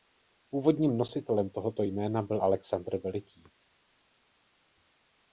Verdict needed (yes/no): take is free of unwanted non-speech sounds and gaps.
yes